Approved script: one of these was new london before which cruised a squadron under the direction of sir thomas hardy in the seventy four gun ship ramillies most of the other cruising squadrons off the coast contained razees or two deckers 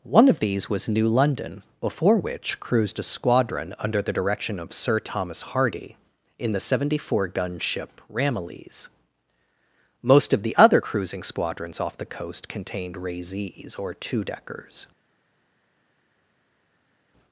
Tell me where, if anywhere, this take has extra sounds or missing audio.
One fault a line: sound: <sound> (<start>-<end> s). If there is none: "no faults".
no faults